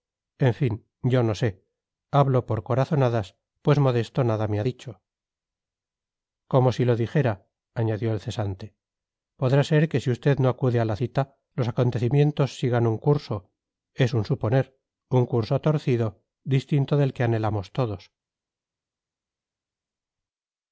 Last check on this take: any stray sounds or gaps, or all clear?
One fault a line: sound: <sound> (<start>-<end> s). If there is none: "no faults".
no faults